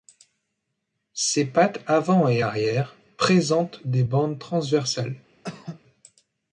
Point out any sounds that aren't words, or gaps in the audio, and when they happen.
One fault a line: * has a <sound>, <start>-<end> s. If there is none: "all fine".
* has a cough, 5.4-5.8 s